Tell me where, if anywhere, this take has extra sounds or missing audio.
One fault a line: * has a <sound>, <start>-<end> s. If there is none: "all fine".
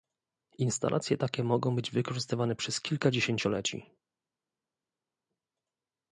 all fine